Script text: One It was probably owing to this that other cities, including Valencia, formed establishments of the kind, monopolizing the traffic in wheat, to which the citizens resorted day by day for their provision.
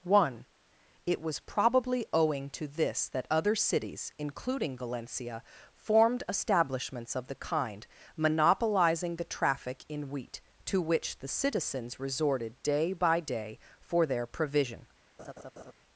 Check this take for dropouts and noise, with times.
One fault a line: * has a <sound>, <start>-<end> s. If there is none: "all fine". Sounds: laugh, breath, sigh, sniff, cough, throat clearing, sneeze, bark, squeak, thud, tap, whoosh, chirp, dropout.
* has a laugh, 15.2-15.7 s